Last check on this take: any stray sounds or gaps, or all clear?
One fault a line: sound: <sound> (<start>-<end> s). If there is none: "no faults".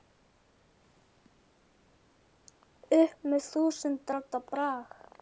no faults